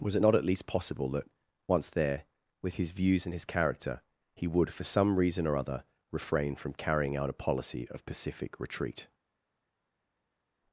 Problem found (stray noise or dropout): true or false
false